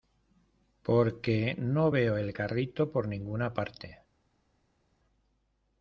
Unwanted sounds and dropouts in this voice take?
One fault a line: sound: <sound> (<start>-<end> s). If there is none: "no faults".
no faults